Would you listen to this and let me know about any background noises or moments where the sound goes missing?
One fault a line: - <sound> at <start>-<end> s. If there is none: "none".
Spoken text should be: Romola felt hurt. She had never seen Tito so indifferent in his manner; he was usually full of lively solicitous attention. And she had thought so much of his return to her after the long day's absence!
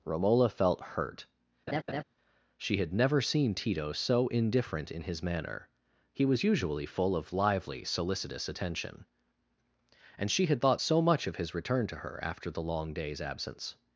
- laugh at 1.7-2.0 s